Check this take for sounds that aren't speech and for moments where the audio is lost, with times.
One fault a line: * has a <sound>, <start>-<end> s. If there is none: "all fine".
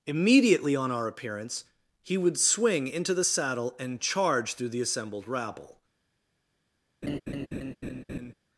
* has a laugh, 7.0-8.3 s